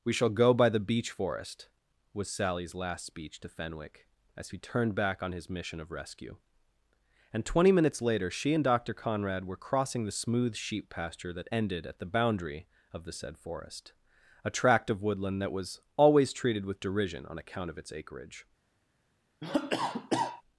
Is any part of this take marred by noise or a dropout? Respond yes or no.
yes